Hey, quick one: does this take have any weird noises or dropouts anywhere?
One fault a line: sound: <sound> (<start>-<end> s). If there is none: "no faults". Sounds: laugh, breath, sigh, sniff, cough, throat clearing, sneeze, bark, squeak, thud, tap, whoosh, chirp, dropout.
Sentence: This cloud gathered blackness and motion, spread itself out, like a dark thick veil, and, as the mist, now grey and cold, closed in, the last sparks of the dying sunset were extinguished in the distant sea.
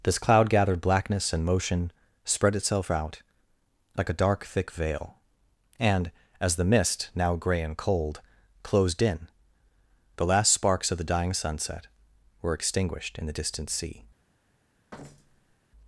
sound: thud (14.9-15.6 s)